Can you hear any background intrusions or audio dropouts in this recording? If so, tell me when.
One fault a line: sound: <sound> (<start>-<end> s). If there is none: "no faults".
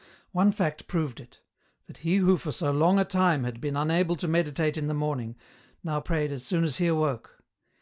no faults